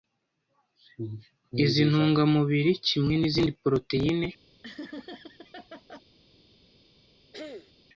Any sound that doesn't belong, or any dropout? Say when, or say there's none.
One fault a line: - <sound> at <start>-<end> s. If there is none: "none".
- laugh at 4.6-6.0 s
- throat clearing at 7.3-7.7 s